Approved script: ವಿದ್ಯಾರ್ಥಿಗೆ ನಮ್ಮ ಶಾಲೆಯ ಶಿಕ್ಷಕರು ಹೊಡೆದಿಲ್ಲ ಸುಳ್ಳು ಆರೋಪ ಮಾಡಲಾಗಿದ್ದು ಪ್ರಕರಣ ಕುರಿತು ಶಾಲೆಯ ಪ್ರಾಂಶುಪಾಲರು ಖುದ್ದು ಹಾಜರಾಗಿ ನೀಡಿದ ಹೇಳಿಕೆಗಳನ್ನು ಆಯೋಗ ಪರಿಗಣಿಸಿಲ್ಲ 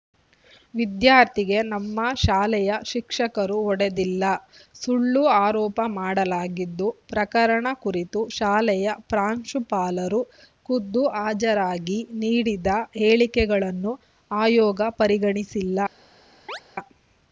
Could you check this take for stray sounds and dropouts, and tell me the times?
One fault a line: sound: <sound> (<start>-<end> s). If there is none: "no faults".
sound: chirp (16.5-16.6 s)